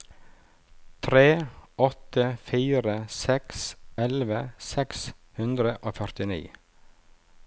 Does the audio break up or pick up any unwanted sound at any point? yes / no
no